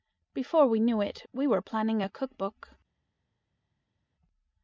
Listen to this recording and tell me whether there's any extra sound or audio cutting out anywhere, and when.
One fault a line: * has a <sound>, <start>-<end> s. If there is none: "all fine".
all fine